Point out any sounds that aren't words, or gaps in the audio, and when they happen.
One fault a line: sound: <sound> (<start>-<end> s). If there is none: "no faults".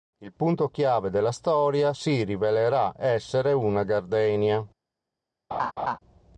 sound: laugh (5.5-6.0 s)